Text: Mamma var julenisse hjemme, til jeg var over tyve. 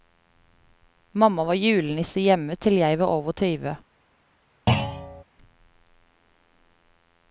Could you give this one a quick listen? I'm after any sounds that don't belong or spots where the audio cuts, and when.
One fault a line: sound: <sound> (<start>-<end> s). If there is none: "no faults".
sound: thud (4.7-5.2 s)